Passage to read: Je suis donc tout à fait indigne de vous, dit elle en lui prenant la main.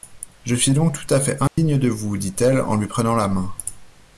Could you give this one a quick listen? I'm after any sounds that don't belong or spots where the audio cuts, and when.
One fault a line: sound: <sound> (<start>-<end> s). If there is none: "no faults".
sound: dropout (1.5-1.6 s)